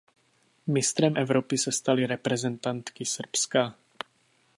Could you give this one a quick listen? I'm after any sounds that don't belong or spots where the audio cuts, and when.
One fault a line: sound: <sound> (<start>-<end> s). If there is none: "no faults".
no faults